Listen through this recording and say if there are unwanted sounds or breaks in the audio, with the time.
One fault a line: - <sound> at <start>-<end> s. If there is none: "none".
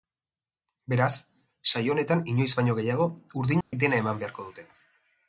- dropout at 3.6-3.7 s